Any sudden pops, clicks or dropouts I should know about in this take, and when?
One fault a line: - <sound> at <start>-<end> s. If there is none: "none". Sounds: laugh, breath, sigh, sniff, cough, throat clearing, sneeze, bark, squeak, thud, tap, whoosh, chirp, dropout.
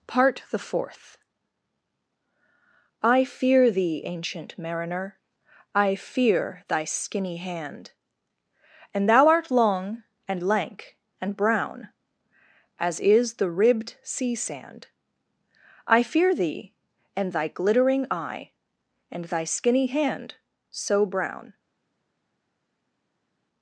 none